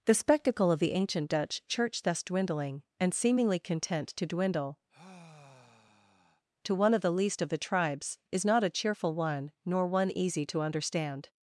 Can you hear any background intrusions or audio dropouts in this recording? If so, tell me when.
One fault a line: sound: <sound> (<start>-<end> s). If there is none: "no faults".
sound: sigh (4.9-6.4 s)